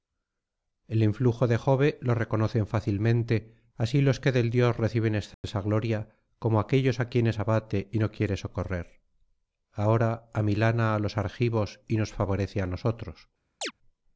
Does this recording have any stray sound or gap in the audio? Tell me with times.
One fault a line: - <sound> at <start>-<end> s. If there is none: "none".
- dropout at 5.3-5.4 s
- chirp at 13.6-13.7 s